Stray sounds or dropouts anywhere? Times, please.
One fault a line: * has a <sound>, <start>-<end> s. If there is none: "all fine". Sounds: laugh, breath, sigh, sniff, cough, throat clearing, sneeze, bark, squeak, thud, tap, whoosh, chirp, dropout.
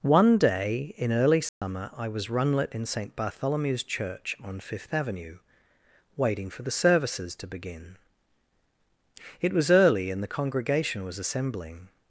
* has a dropout, 1.5-1.6 s